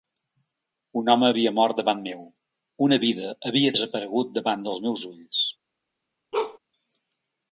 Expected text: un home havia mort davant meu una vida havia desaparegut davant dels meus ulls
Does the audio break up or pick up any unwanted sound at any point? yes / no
yes